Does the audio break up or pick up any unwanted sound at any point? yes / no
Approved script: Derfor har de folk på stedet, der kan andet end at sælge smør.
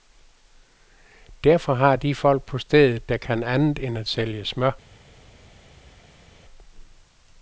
no